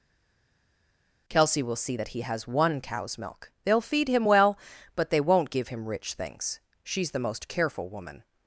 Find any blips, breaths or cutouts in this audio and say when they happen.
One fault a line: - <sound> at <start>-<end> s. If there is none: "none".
none